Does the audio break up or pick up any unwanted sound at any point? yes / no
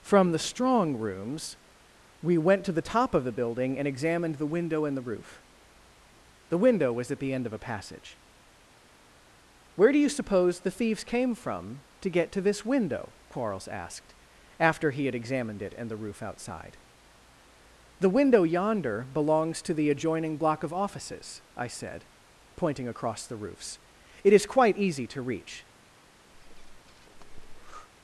yes